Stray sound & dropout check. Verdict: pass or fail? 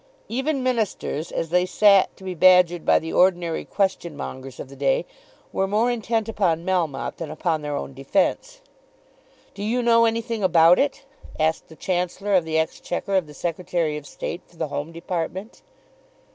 pass